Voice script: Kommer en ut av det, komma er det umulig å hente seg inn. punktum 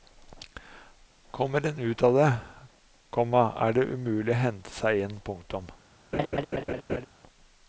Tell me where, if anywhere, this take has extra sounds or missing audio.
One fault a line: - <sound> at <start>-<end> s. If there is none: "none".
- laugh at 6.1-7.1 s